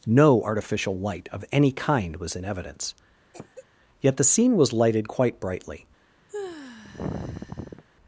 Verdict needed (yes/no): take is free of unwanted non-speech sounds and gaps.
no